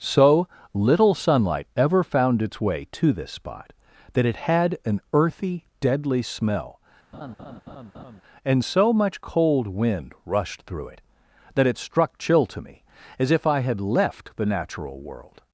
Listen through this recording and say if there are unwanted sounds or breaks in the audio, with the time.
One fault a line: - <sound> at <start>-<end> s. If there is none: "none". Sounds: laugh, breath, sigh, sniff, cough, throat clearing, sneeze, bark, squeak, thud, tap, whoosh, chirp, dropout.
- laugh at 7.1-8.2 s